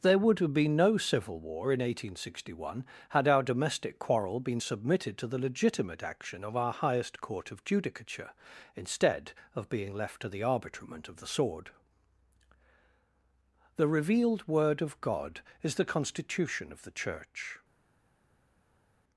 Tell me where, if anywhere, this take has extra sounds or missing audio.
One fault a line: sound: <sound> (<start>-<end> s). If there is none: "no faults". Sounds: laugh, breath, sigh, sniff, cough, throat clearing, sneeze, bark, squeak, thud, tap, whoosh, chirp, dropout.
no faults